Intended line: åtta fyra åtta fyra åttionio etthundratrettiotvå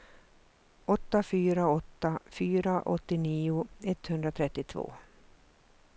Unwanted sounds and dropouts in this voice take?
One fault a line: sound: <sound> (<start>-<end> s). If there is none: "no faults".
no faults